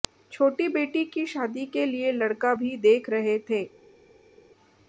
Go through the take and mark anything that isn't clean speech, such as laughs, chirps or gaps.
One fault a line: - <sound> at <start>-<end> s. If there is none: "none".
none